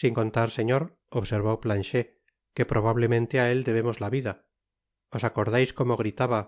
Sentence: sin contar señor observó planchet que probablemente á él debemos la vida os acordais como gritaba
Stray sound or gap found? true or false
false